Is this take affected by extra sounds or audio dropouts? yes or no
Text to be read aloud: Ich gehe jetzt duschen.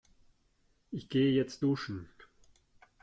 no